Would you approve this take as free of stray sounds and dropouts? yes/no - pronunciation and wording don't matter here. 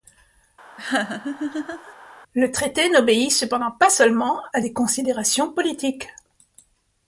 no